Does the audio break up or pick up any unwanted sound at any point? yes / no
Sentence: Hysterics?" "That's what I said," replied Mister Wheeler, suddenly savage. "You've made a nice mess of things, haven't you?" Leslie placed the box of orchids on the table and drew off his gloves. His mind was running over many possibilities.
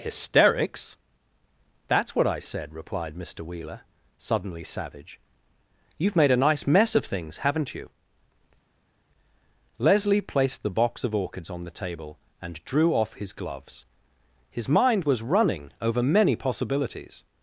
no